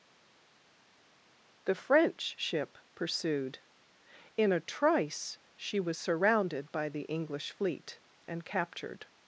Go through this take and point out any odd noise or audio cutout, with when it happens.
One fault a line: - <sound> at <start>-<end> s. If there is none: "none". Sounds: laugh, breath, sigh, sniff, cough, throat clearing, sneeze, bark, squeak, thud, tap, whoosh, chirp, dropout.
none